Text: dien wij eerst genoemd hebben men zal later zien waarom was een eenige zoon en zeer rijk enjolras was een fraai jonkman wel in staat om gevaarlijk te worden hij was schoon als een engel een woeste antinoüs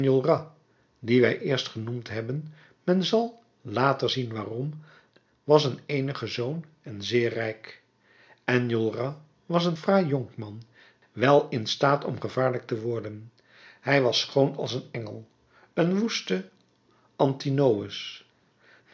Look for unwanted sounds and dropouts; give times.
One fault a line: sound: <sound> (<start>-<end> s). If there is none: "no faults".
no faults